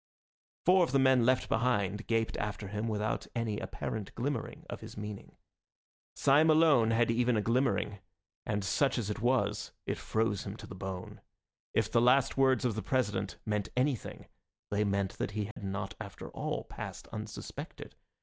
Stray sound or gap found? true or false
true